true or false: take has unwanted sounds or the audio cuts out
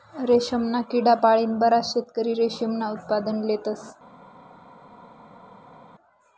false